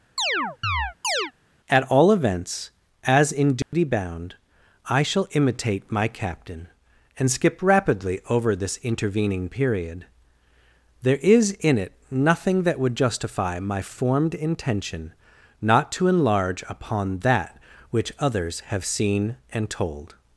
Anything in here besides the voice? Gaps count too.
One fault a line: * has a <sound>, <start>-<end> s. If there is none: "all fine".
* has a chirp, 0.2-1.3 s
* has a dropout, 3.6-3.7 s